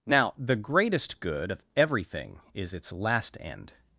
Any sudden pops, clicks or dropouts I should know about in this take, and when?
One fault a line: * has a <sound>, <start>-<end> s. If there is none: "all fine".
all fine